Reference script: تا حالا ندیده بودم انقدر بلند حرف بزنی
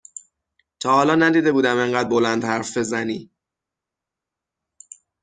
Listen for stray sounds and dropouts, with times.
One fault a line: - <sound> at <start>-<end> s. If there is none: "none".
none